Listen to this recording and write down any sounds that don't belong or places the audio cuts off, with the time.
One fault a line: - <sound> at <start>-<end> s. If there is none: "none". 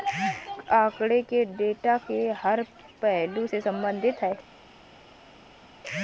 none